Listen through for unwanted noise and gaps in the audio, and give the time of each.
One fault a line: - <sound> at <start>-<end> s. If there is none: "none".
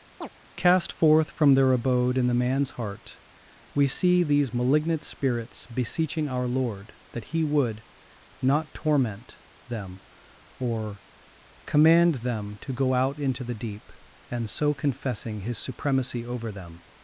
- chirp at 0.2-0.3 s